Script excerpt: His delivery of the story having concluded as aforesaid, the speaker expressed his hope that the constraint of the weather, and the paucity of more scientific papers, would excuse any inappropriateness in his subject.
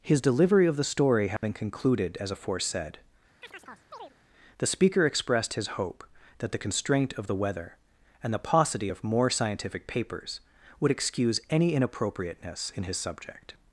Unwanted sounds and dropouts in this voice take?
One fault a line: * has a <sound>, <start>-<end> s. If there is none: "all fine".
* has a dropout, 1.4-1.4 s
* has a chirp, 3.4-4.1 s